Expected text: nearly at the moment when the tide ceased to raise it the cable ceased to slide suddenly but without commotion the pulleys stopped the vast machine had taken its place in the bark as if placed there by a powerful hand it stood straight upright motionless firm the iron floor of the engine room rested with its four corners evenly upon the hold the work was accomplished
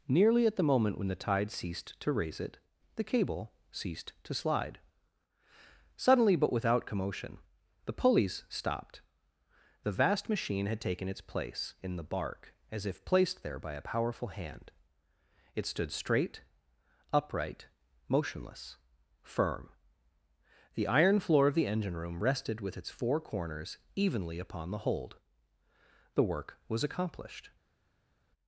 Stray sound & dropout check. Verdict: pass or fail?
pass